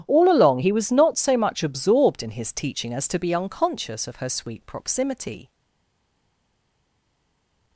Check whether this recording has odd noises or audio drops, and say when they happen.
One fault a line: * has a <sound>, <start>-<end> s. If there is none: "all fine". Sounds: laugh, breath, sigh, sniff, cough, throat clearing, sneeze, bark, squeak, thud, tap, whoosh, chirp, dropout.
all fine